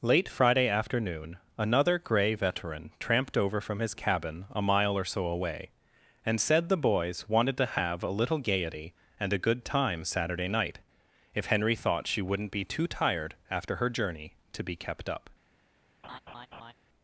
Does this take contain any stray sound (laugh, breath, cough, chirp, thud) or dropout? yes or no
yes